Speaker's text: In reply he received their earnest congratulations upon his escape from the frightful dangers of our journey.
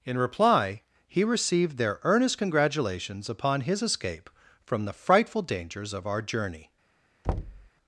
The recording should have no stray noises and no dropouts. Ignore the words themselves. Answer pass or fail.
fail